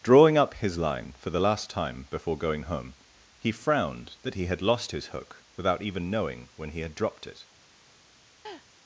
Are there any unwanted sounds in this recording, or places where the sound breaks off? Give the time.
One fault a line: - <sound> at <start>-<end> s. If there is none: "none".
- laugh at 8.4-8.7 s